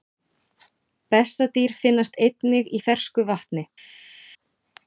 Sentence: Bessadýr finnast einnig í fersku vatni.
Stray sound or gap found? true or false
false